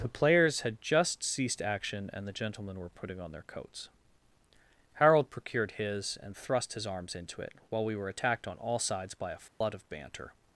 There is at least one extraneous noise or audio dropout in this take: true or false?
true